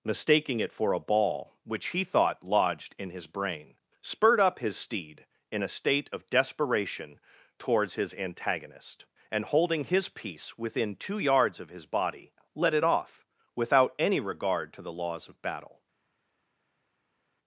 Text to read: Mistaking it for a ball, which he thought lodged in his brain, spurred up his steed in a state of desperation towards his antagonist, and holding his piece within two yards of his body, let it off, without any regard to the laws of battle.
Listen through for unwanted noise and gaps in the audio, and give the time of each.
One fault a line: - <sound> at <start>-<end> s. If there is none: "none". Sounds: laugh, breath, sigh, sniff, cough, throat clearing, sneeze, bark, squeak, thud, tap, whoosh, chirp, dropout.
none